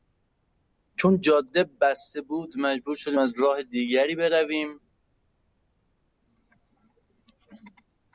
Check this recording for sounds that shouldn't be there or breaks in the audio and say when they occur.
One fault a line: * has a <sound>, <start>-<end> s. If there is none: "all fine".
all fine